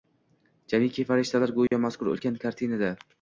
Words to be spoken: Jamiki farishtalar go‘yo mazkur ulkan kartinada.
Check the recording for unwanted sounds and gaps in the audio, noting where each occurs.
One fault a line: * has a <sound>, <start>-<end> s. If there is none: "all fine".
* has a dropout, 1.7-1.7 s